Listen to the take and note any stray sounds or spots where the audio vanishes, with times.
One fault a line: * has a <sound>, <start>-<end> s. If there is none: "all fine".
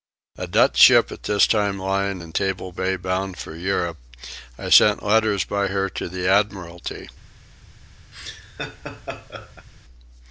* has a laugh, 8.1-9.7 s